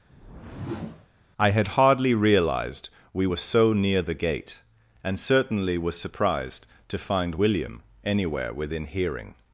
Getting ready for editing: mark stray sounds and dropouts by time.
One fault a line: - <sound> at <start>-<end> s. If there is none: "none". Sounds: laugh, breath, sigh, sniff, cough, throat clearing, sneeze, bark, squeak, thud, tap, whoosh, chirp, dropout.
- whoosh at 0.1-1.1 s